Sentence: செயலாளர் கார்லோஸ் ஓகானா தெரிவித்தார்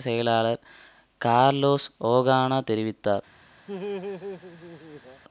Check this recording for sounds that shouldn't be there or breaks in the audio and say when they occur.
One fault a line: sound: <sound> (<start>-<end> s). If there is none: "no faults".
sound: laugh (3.7-5.2 s)